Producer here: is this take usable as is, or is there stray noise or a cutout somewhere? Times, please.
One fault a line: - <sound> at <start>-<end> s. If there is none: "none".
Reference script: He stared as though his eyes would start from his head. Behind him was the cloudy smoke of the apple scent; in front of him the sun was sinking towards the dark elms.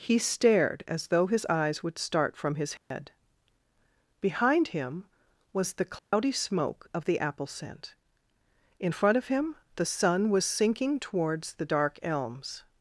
- dropout at 2.8-2.9 s
- dropout at 6.0-6.1 s